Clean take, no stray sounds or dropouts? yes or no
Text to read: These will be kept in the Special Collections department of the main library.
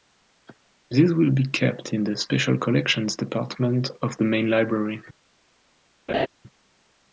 no